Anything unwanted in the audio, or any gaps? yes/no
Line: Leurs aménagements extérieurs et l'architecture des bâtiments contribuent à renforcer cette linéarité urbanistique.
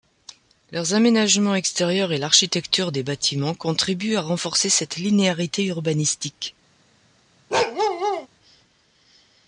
yes